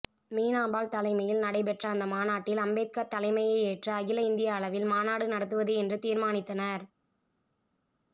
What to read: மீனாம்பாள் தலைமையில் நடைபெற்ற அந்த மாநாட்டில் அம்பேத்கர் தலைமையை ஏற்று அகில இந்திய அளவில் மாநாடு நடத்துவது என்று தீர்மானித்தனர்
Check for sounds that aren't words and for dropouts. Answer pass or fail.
pass